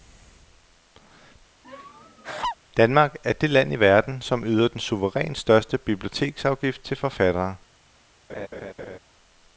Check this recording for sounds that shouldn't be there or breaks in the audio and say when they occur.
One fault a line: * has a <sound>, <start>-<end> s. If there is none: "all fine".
* has a laugh, 1.6-2.6 s
* has a laugh, 8.3-9.0 s